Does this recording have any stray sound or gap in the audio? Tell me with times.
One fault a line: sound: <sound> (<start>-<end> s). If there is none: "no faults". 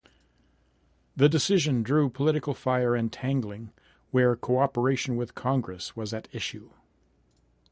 no faults